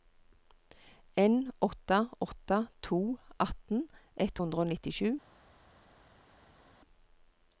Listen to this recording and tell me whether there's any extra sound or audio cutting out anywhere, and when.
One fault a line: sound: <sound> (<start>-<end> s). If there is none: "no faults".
no faults